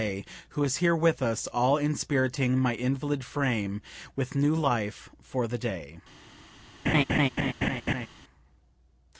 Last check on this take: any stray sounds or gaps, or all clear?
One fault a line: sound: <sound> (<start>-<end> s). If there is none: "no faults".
sound: laugh (6.9-8.1 s)